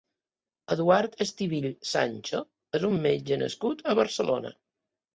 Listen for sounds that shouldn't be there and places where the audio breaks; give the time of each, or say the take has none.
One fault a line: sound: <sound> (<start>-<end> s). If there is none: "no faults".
no faults